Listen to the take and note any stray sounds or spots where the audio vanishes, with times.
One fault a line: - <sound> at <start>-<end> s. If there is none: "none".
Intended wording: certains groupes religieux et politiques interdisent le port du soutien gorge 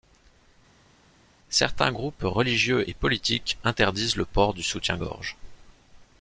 none